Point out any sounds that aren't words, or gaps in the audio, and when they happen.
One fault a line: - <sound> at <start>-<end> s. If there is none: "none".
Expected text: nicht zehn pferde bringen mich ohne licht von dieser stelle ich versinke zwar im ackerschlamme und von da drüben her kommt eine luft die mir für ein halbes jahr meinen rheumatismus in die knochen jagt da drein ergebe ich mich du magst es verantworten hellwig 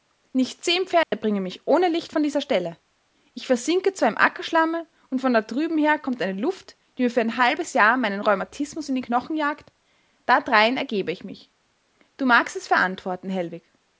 - dropout at 1.0-1.1 s